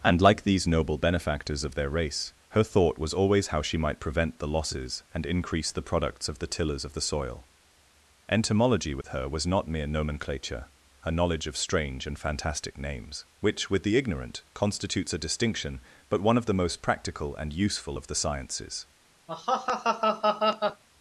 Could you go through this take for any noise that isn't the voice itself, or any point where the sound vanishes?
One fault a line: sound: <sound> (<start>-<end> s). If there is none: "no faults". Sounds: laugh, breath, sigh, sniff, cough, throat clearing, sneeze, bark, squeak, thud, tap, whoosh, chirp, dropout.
sound: dropout (9.0-9.0 s)
sound: laugh (19.3-20.8 s)